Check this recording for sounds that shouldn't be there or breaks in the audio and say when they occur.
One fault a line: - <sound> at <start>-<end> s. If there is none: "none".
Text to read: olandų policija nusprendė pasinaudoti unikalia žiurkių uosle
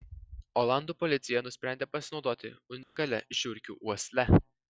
- dropout at 2.8-3.0 s